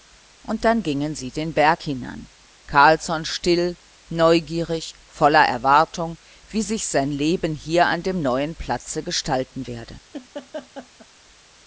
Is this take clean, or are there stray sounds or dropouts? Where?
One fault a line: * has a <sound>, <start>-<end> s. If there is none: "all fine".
* has a laugh, 10.1-11.1 s